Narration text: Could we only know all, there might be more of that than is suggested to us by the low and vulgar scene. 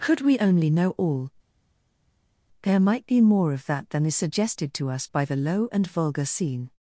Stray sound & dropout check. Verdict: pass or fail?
pass